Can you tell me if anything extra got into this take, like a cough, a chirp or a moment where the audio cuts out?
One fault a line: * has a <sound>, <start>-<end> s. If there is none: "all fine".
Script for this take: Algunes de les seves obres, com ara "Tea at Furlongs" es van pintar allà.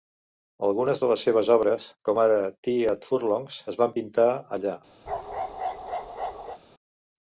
* has a bark, 5.1-6.6 s